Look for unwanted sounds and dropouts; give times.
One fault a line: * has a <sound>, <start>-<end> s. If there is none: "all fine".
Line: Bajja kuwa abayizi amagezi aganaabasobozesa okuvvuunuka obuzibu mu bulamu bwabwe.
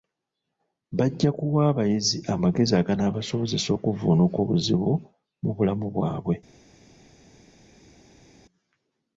all fine